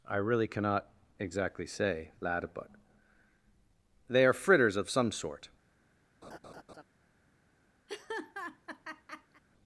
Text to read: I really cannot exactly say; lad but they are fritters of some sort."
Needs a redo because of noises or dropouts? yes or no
yes